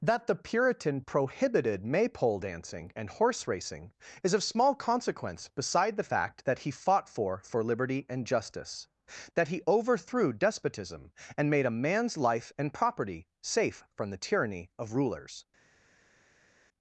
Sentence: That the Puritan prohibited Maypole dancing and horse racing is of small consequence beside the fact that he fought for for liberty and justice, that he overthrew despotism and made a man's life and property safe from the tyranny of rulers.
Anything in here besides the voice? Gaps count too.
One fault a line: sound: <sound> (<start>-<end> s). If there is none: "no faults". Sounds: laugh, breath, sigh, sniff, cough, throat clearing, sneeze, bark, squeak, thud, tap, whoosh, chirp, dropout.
no faults